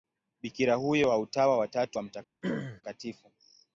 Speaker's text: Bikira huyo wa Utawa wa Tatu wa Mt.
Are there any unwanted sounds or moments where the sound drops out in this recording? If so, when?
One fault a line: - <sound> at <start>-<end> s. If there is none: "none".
- throat clearing at 2.4-2.8 s